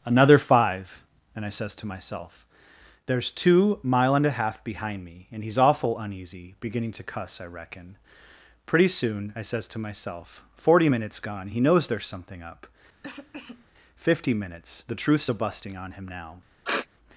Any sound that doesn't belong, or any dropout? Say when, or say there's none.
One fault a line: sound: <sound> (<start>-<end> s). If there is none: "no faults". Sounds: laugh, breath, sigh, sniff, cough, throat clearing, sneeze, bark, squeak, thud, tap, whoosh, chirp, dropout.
sound: cough (13.0-13.7 s)
sound: sniff (16.6-16.9 s)